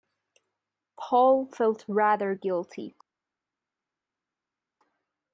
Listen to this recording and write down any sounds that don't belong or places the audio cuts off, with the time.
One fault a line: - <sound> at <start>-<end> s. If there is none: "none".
none